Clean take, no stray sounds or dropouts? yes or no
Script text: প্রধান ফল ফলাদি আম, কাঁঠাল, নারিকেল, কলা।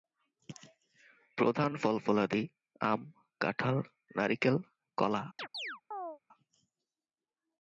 no